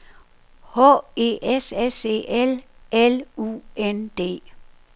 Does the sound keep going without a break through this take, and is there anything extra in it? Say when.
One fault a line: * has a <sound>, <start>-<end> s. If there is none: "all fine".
all fine